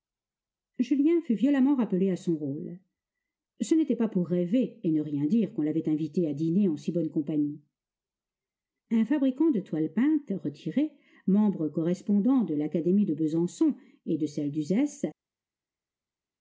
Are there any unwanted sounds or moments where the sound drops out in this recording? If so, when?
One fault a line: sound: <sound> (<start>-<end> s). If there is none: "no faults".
no faults